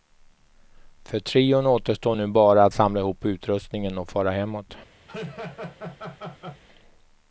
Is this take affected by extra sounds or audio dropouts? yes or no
yes